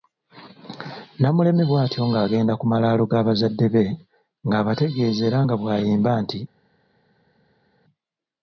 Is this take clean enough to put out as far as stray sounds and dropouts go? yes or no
yes